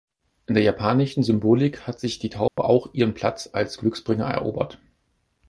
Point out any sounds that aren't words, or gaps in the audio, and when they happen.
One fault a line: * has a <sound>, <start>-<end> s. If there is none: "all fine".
* has a dropout, 2.5-2.6 s